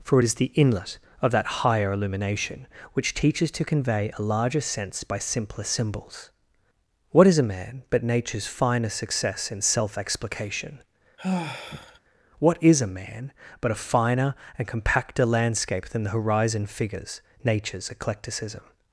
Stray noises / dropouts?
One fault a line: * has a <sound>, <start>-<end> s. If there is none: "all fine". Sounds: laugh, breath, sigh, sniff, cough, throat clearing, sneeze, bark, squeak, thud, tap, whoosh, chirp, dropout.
* has a sigh, 11.2-12.0 s